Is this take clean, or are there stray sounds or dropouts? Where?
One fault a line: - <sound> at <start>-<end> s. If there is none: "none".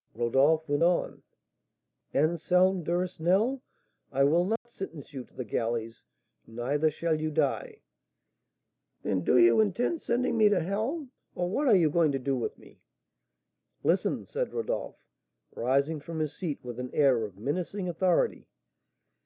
- dropout at 4.6-4.7 s